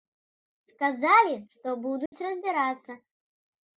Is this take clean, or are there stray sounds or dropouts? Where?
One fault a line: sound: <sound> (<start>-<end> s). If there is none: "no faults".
sound: dropout (2.1-2.1 s)